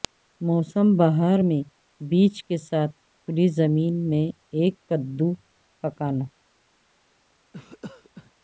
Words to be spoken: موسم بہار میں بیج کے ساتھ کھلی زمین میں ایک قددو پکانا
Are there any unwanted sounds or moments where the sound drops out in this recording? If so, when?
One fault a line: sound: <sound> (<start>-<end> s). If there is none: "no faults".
sound: cough (7.5-8.3 s)